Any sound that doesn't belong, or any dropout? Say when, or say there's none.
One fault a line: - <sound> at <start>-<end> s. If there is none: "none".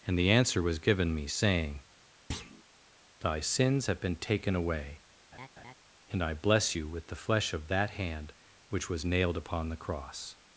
- thud at 2.3-2.6 s
- laugh at 5.3-5.7 s